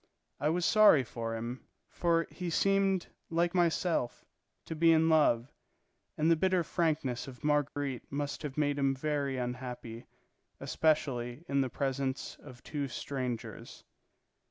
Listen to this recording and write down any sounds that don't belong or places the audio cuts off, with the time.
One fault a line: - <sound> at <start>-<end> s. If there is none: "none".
- dropout at 7.7-7.8 s